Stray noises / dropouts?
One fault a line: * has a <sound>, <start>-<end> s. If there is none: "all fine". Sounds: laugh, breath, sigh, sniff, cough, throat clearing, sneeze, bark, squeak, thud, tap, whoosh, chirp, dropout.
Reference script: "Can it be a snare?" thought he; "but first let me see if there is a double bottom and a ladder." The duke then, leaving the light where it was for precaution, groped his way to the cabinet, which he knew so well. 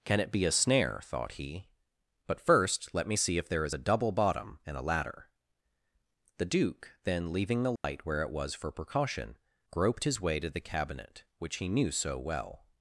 * has a dropout, 7.8-7.8 s